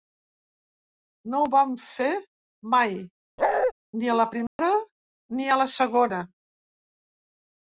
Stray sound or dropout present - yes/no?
yes